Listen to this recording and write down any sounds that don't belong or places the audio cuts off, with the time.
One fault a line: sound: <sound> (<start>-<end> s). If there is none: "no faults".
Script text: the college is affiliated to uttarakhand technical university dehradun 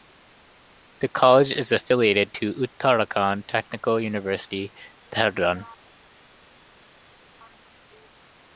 no faults